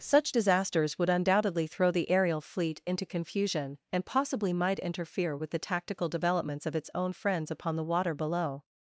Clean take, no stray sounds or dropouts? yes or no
yes